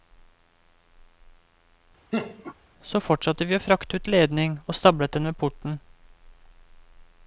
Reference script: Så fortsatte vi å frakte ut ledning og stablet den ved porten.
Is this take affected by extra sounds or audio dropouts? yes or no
yes